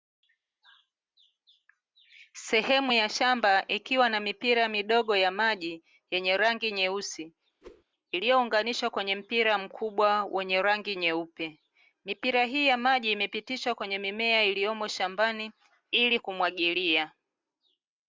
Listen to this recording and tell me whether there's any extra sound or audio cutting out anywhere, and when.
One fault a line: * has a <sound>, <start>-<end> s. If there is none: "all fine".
* has a whoosh, 7.6-7.8 s